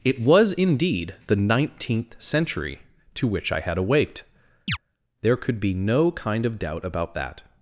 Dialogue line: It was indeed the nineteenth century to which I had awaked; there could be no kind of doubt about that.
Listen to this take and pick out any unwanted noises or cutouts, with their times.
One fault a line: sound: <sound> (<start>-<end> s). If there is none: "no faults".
sound: chirp (4.7-4.8 s)